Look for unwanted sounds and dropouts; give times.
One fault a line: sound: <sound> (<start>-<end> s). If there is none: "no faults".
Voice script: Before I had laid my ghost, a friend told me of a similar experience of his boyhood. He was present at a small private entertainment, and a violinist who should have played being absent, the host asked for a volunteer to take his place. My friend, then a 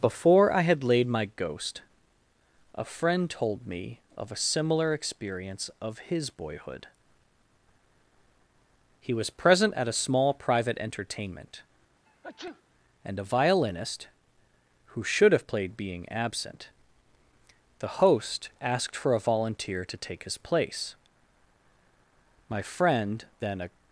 sound: sneeze (12.1-12.6 s)